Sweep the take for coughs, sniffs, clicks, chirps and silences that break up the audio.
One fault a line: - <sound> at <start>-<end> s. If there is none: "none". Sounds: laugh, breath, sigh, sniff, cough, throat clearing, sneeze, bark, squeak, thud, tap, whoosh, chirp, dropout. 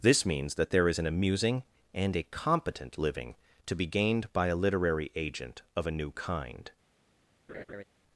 - laugh at 7.5-7.8 s